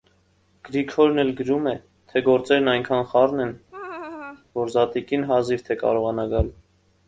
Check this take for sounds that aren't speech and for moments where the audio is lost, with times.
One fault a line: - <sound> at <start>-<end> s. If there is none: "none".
- laugh at 3.7-4.5 s